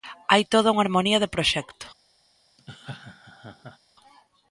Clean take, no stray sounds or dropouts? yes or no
no